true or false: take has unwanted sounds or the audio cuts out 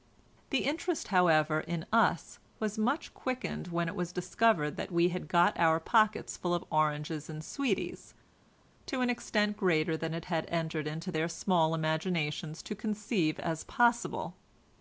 false